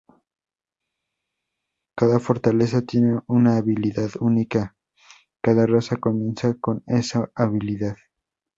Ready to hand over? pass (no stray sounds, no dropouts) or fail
pass